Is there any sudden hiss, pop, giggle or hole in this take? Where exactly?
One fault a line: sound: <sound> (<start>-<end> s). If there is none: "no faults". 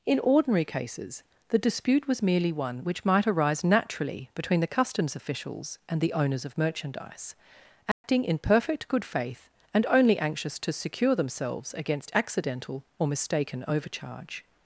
sound: dropout (7.9-8.0 s)